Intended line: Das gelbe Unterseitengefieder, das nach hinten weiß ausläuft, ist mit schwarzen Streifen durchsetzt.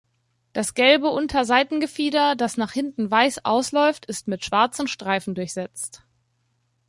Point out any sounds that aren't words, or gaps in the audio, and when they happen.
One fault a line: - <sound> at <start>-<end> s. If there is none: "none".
none